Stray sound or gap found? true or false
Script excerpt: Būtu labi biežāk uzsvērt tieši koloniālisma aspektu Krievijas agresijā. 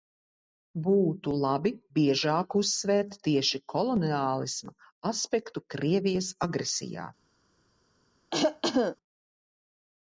true